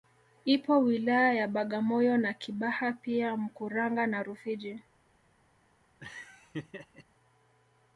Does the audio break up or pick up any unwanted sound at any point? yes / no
yes